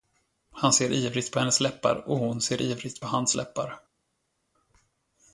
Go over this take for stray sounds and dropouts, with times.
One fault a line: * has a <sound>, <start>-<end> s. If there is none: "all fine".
all fine